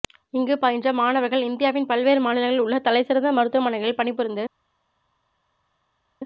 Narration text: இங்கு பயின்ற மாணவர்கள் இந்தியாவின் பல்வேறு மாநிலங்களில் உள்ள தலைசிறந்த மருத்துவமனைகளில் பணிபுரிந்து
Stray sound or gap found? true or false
false